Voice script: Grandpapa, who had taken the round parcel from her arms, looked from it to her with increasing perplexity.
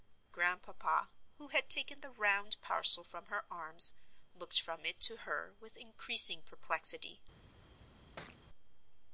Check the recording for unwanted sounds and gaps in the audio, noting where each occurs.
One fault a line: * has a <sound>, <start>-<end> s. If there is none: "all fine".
* has a thud, 8.2-8.5 s